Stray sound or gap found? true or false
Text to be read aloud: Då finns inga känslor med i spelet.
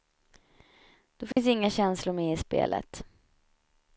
true